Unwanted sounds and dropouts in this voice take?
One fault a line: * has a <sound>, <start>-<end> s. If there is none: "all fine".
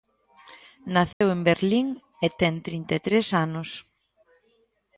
* has a dropout, 1.1-1.2 s